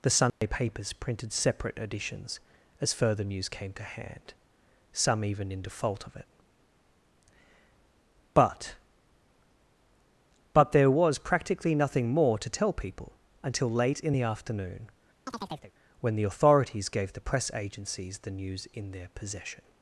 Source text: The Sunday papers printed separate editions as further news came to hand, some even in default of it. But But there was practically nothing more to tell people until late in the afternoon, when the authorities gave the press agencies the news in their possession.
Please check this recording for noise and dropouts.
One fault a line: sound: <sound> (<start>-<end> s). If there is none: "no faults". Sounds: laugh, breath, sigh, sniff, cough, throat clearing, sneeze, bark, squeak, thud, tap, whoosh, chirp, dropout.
sound: dropout (0.3-0.4 s)
sound: chirp (15.3-15.7 s)